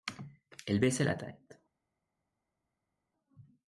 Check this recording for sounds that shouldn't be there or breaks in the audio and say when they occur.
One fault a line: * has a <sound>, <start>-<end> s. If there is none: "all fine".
all fine